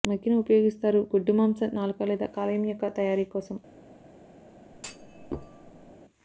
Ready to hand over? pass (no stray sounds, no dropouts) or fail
fail